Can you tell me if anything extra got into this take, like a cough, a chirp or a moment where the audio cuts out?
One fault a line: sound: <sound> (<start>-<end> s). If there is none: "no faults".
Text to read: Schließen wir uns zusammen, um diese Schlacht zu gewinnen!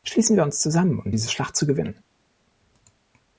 no faults